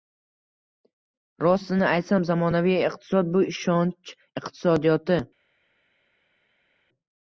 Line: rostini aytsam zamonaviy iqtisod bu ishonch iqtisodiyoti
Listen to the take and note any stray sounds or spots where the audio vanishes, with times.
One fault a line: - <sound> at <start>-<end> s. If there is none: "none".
none